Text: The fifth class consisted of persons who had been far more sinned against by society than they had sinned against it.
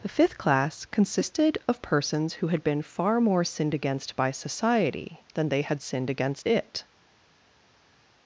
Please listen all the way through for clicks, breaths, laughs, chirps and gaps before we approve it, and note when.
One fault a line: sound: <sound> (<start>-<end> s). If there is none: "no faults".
no faults